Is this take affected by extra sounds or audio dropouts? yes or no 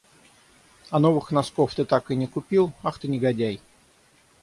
no